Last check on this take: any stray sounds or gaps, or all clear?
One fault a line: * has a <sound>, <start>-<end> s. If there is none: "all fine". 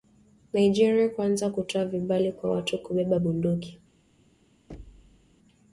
* has a thud, 4.7-5.3 s